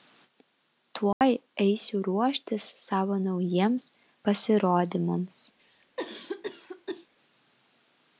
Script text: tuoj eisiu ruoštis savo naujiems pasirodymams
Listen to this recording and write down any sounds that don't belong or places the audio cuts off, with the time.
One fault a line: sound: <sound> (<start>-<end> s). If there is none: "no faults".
sound: dropout (1.1-1.2 s)
sound: cough (5.6-7.1 s)